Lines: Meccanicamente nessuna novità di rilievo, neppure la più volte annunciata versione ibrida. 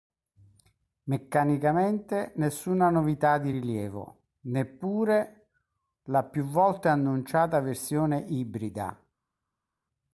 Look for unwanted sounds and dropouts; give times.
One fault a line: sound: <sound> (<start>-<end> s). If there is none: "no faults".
no faults